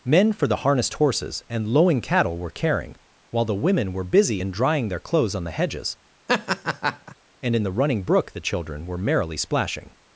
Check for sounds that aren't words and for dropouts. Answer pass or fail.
fail